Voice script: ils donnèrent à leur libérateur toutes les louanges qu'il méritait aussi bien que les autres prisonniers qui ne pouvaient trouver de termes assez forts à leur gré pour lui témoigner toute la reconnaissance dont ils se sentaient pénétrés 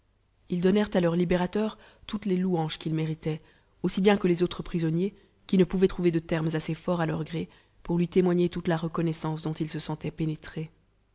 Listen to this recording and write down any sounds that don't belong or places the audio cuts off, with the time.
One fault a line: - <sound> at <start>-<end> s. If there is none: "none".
none